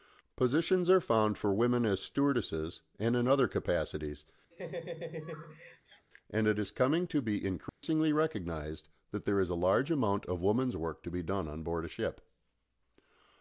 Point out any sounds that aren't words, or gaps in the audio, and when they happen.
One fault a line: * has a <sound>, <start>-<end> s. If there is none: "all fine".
* has a laugh, 4.5-6.1 s
* has a dropout, 7.7-7.8 s